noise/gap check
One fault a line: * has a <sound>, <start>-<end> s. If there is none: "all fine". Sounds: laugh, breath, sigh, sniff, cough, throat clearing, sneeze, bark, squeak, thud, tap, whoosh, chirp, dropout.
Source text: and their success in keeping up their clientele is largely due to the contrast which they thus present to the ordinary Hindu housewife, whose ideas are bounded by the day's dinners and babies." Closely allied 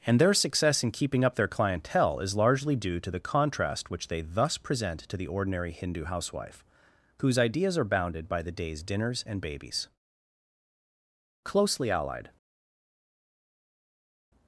all fine